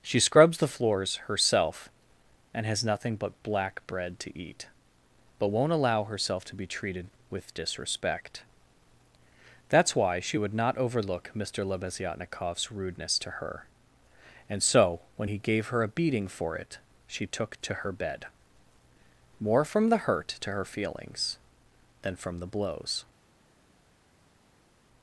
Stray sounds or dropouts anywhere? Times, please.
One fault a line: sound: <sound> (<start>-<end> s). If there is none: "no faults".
no faults